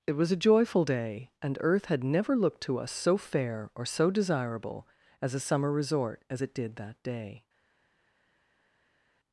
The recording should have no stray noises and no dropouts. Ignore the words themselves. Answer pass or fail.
pass